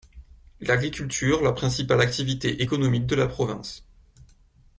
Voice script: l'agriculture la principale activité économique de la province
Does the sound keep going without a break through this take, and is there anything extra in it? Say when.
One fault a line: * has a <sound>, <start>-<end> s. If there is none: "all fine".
all fine